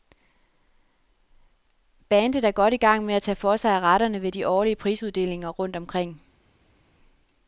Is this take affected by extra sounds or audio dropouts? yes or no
no